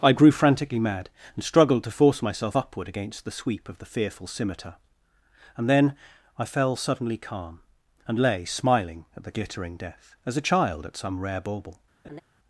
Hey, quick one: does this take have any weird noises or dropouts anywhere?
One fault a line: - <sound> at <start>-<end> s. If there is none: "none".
- laugh at 12.0-12.2 s